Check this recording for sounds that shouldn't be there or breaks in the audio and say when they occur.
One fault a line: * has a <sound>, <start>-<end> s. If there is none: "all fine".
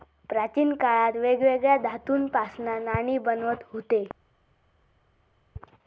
all fine